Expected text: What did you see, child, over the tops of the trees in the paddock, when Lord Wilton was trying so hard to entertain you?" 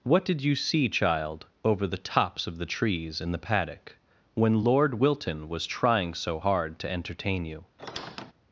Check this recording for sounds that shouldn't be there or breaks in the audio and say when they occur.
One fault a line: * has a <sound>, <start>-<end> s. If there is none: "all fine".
* has a squeak, 7.8-8.3 s